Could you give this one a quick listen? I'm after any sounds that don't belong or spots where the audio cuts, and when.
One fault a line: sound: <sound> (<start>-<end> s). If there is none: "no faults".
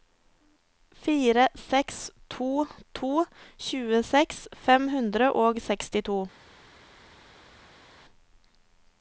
no faults